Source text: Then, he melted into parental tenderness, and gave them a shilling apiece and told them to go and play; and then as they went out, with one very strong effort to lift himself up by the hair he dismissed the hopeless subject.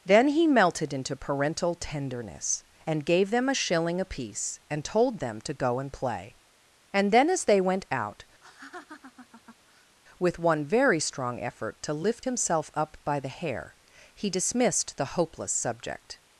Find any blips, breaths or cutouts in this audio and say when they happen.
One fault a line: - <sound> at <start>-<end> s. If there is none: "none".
- laugh at 8.4-10.0 s